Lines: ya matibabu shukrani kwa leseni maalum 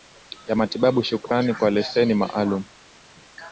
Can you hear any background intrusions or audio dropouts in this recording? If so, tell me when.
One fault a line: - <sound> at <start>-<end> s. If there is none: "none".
none